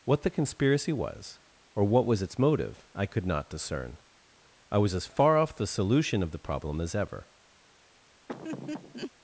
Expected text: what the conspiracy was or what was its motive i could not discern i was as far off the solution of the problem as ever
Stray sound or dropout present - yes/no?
yes